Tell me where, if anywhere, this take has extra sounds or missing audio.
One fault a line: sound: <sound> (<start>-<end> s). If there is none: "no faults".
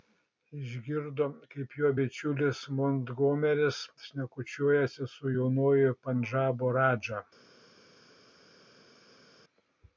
no faults